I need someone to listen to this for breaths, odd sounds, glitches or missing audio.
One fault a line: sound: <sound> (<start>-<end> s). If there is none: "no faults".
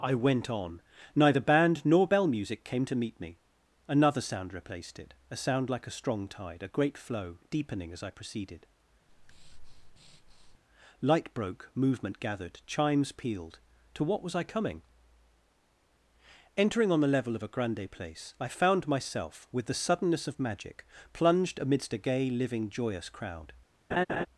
sound: breath (9.1-10.6 s)
sound: laugh (23.9-24.3 s)